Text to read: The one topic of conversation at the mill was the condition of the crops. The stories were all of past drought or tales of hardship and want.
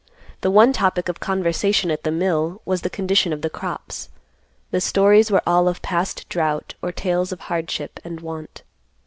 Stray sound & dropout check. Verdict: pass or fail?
pass